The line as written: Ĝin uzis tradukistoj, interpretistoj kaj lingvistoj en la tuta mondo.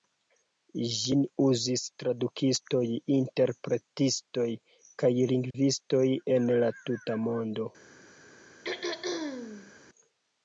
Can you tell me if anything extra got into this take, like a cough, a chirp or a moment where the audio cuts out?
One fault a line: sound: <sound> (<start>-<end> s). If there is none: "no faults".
sound: dropout (5.5-5.5 s)
sound: throat clearing (8.6-9.7 s)